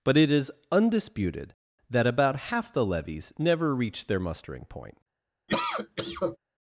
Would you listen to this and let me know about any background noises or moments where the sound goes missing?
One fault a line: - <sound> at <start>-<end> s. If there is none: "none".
- cough at 5.5-6.4 s